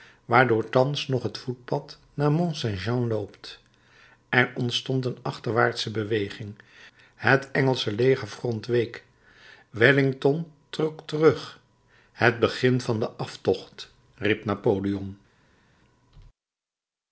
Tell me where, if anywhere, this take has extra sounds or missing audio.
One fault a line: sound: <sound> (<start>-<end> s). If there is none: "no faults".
no faults